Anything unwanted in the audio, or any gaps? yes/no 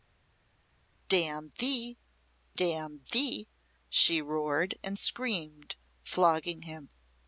no